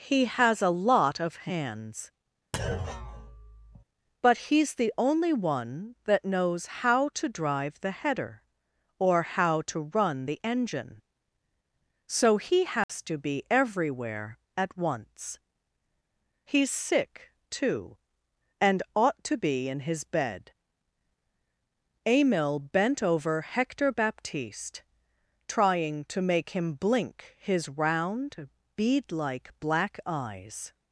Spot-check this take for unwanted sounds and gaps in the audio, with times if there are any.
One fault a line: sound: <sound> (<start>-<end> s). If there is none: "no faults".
sound: thud (2.5-3.8 s)
sound: dropout (12.8-12.9 s)